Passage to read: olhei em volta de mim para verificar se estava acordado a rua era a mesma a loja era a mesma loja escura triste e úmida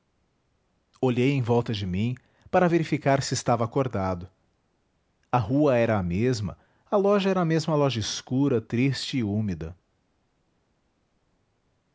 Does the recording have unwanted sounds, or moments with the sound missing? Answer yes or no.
no